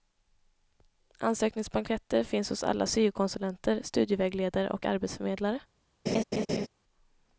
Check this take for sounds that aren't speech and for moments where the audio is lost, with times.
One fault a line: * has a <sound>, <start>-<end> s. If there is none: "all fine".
* has a laugh, 6.1-6.7 s